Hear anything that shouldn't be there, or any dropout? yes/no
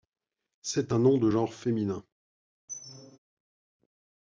yes